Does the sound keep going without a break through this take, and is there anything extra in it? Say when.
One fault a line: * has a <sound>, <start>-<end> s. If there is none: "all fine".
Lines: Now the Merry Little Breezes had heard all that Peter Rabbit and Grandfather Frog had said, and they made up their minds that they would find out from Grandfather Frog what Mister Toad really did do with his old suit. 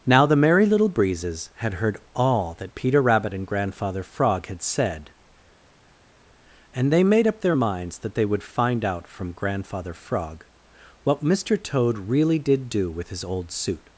all fine